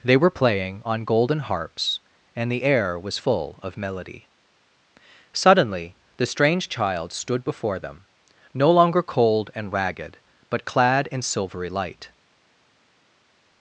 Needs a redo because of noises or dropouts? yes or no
no